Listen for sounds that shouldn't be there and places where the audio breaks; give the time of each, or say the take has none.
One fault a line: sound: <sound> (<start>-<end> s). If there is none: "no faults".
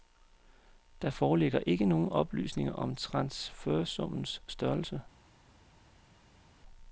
no faults